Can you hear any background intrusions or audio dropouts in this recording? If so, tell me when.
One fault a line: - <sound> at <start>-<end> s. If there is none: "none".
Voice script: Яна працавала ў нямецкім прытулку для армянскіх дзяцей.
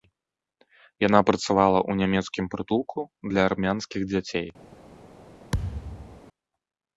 - thud at 5.5-6.2 s